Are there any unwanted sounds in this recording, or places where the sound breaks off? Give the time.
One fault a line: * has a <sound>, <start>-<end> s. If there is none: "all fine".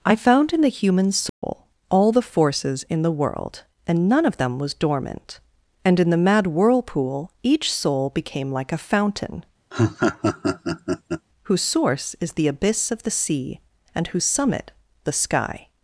* has a dropout, 1.3-1.4 s
* has a laugh, 9.7-11.3 s